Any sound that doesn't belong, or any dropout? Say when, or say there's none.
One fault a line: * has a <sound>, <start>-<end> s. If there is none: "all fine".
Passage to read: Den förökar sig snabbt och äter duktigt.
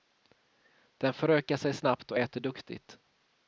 all fine